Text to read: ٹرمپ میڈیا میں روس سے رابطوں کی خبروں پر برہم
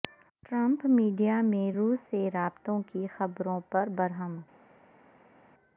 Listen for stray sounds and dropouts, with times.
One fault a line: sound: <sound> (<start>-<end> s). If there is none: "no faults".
no faults